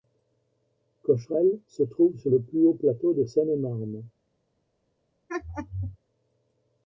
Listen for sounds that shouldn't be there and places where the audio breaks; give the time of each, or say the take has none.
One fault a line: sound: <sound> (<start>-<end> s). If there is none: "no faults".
sound: laugh (5.3-6.0 s)